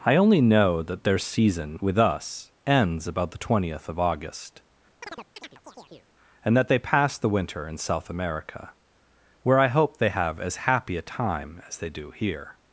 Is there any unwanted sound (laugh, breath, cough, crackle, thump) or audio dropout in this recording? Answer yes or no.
yes